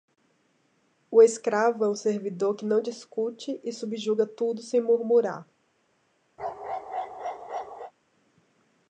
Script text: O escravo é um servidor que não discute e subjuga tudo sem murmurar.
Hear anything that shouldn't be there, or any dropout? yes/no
yes